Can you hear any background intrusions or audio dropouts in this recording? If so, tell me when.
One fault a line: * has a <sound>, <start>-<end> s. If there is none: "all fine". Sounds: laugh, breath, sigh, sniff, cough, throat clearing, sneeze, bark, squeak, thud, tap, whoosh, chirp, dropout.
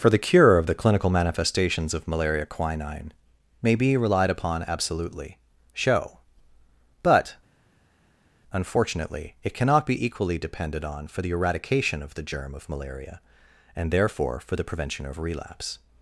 all fine